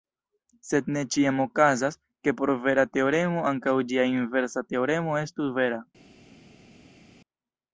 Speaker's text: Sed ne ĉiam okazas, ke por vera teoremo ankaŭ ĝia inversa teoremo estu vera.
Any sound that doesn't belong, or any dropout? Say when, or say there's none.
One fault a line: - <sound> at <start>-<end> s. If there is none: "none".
none